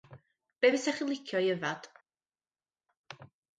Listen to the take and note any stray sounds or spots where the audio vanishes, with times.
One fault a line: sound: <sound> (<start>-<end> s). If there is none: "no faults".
no faults